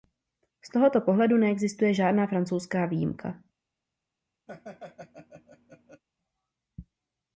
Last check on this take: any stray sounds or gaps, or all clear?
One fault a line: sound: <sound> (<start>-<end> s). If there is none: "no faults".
sound: laugh (4.5-6.0 s)